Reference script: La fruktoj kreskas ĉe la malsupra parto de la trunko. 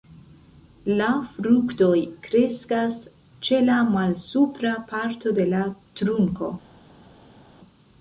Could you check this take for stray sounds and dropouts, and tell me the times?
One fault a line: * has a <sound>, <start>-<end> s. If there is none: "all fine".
all fine